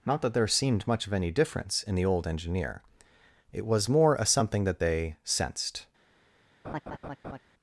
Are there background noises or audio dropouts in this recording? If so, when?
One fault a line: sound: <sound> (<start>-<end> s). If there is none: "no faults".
sound: laugh (6.6-7.4 s)